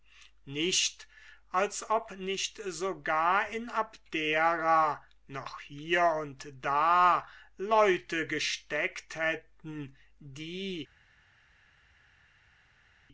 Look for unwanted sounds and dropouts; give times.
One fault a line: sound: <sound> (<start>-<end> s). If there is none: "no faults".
no faults